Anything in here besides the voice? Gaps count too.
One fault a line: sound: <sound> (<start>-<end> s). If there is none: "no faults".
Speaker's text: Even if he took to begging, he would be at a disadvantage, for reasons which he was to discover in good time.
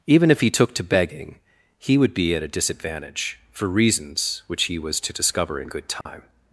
sound: dropout (6.0-6.1 s)